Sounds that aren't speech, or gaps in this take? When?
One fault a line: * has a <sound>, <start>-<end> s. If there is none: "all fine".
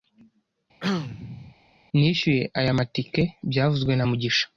* has a throat clearing, 0.8-1.6 s